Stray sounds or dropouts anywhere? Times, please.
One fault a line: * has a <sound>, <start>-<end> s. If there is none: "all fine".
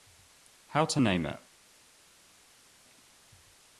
all fine